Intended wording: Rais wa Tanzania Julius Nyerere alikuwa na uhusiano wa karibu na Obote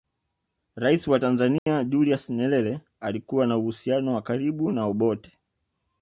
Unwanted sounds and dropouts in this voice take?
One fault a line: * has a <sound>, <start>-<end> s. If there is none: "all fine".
* has a dropout, 1.6-1.7 s